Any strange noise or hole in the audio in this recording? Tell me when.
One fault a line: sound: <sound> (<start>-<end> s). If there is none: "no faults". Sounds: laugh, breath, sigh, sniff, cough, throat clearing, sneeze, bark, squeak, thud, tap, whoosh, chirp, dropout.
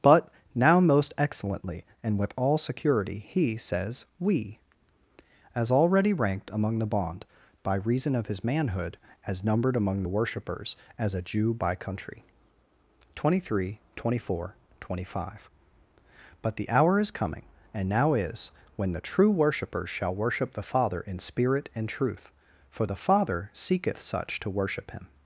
no faults